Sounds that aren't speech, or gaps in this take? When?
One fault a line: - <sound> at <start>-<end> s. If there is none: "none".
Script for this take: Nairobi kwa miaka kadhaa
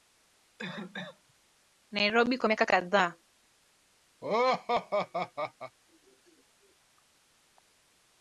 - cough at 0.6-1.3 s
- laugh at 4.2-5.8 s